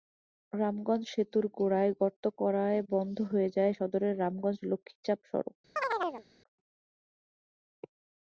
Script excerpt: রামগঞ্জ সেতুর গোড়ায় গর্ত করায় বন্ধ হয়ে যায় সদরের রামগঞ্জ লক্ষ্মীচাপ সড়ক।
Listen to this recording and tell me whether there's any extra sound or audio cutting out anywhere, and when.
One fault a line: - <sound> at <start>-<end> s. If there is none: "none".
- chirp at 5.8-6.2 s